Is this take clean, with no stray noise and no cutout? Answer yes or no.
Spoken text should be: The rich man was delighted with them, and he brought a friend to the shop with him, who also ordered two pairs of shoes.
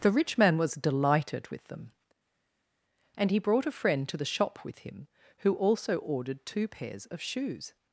yes